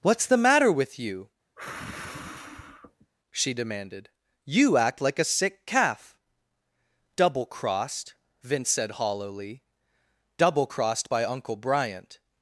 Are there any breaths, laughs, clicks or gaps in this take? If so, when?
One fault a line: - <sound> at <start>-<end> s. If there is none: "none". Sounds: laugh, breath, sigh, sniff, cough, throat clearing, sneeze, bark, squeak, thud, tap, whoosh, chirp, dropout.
- sigh at 1.6-3.1 s